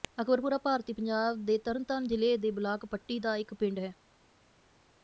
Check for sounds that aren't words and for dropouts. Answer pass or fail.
pass